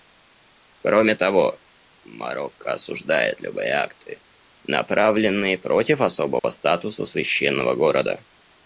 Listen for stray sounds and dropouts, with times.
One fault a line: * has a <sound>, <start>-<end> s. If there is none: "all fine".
* has a dropout, 6.4-6.4 s